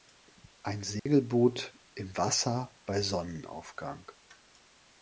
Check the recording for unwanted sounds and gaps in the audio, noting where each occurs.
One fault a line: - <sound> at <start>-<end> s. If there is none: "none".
- dropout at 1.0-1.1 s